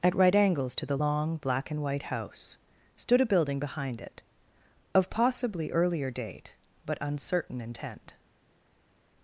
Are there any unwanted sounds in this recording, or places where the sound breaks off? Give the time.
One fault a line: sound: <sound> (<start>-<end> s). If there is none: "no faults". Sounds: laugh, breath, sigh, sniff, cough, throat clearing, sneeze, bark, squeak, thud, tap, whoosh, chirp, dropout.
no faults